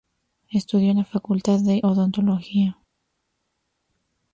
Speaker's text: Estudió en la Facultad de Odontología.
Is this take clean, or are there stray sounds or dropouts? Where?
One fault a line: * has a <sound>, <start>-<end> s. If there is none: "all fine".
all fine